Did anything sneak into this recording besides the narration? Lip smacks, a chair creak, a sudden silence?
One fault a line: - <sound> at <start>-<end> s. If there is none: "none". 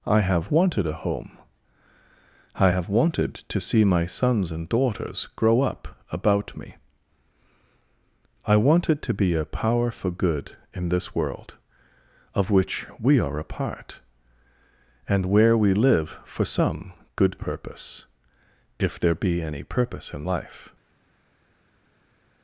none